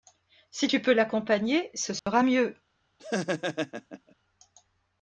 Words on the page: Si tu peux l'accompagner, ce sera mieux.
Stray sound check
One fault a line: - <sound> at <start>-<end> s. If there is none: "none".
- dropout at 2.0-2.1 s
- laugh at 3.0-4.1 s